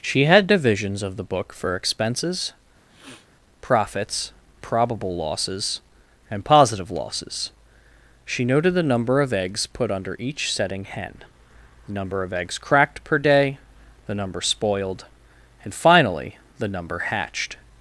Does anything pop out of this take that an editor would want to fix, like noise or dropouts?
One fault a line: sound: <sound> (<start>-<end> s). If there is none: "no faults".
sound: sniff (2.9-3.3 s)